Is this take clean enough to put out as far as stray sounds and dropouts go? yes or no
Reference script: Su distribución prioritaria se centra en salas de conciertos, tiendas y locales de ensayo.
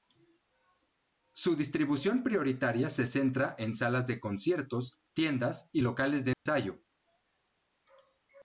no